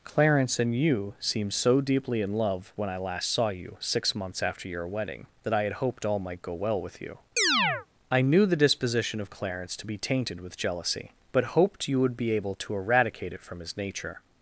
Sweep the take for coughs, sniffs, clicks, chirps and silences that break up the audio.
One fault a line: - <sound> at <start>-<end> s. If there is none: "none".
- chirp at 7.4-7.9 s